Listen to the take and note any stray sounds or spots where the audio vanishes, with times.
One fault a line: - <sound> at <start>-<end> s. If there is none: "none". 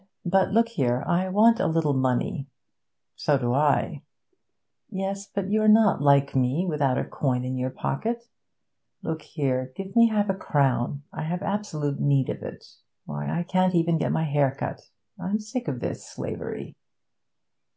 none